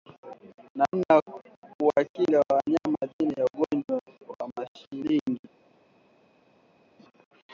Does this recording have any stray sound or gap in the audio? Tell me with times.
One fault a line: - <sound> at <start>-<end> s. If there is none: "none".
none